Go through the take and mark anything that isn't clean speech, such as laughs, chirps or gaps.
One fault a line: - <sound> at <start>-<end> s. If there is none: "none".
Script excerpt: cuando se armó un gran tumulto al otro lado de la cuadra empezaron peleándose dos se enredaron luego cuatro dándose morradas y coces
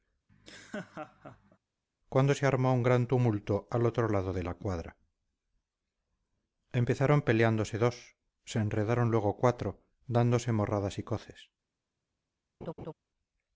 - laugh at 0.3-1.6 s
- laugh at 12.6-12.9 s